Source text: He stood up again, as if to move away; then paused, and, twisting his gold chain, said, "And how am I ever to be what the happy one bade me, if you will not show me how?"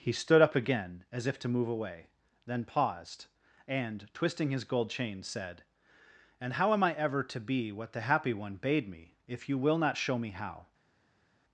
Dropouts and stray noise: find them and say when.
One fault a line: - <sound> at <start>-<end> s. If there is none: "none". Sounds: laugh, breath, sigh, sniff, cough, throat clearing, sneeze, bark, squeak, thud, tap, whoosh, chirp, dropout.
none